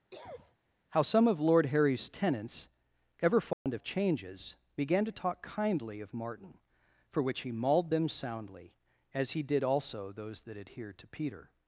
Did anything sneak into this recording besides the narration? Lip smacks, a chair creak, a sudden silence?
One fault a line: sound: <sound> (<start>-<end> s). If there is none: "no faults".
sound: cough (0.1-0.6 s)
sound: dropout (3.5-3.7 s)